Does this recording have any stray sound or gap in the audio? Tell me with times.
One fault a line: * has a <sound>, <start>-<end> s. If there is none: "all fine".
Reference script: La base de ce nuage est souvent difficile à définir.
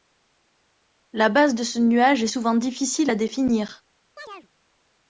* has a chirp, 4.2-4.5 s